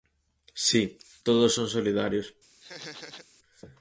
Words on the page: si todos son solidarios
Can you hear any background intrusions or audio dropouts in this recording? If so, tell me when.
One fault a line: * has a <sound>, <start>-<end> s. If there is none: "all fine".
* has a laugh, 2.6-3.3 s